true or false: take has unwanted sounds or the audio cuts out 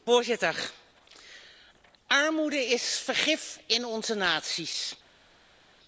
false